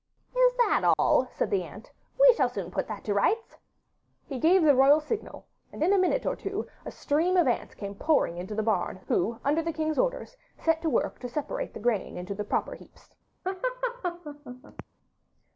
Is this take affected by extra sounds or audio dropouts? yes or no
yes